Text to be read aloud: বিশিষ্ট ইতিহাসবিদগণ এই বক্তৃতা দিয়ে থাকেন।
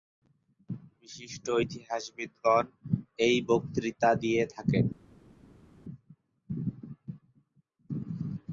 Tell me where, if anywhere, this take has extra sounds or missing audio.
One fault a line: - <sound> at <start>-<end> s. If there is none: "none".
none